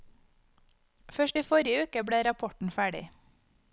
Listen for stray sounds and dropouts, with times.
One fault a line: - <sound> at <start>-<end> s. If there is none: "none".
none